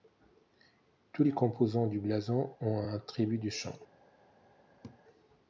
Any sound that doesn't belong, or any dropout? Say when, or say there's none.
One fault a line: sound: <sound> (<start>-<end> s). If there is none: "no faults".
sound: laugh (4.8-5.0 s)